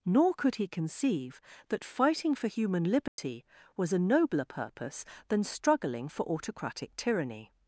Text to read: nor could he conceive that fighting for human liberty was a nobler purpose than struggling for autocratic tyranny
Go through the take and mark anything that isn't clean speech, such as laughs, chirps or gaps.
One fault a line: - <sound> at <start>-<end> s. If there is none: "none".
- dropout at 3.1-3.2 s